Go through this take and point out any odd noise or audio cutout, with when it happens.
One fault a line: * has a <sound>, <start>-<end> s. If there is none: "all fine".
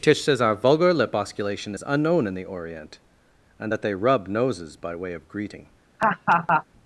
* has a laugh, 6.0-6.6 s